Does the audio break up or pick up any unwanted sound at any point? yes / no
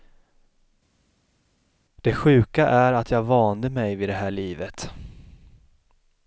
no